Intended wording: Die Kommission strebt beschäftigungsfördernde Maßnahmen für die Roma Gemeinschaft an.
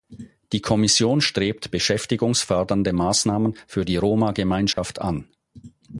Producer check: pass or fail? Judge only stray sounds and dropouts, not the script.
fail